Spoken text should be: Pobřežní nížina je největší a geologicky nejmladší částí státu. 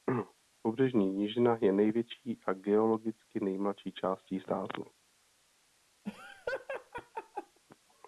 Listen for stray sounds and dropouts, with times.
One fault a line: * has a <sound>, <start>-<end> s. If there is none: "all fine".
* has a laugh, 6.0-7.6 s